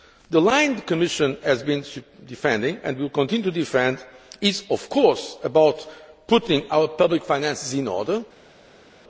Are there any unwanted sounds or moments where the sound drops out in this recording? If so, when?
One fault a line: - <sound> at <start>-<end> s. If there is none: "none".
none